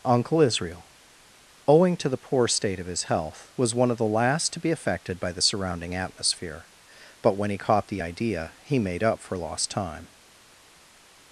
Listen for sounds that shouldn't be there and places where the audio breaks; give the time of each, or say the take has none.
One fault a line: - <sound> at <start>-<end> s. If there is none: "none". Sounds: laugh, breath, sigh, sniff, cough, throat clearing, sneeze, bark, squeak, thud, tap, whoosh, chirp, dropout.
none